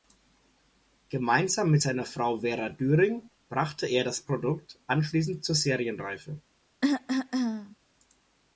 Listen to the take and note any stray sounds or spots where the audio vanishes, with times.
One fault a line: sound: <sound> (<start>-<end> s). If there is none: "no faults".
sound: cough (6.8-7.8 s)